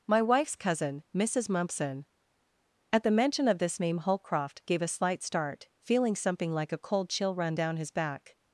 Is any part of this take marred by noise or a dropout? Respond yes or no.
no